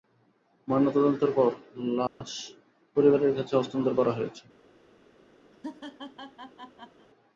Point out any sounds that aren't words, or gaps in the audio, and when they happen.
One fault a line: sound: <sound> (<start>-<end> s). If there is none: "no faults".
sound: dropout (2.1-2.2 s)
sound: laugh (5.5-7.1 s)